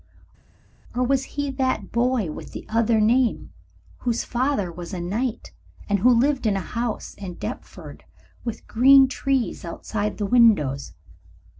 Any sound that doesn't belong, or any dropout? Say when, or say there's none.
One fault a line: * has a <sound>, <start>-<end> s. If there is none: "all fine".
all fine